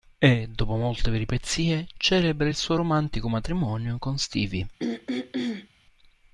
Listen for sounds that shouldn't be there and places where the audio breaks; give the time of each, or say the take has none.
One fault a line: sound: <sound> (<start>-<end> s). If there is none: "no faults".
sound: throat clearing (4.8-5.7 s)